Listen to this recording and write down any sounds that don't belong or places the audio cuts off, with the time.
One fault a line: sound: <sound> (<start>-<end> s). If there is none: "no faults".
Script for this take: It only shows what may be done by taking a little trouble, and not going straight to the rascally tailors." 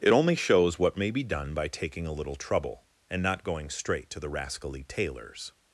no faults